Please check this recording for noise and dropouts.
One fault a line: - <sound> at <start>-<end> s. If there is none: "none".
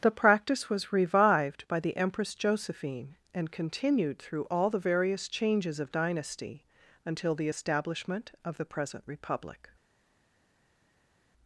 none